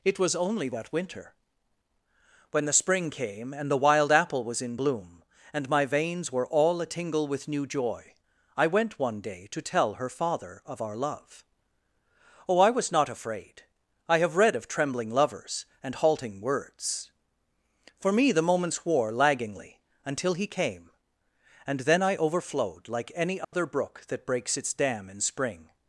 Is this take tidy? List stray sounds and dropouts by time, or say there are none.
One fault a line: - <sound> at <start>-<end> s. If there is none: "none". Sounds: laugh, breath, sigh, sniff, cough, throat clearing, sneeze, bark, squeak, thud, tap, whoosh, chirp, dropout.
- dropout at 23.4-23.5 s